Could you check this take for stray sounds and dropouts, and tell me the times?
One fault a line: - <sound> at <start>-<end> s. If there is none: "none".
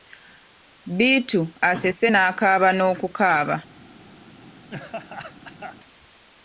- laugh at 4.7-5.8 s